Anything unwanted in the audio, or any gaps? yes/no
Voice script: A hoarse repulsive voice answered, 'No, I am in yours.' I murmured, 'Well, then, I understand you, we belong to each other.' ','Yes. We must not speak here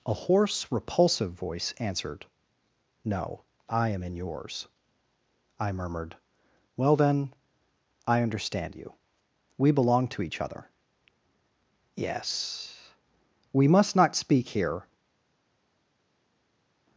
no